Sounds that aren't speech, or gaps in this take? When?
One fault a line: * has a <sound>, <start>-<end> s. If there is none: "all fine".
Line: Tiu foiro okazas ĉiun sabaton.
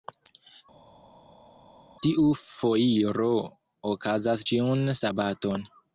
all fine